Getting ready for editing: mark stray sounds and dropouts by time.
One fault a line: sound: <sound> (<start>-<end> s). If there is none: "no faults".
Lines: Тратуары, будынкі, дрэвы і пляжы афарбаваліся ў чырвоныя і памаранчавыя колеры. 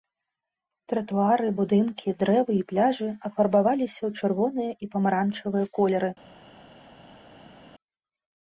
no faults